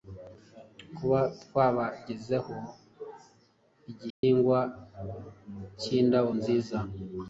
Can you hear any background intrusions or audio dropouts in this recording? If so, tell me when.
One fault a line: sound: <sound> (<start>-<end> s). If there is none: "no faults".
sound: dropout (4.1-4.2 s)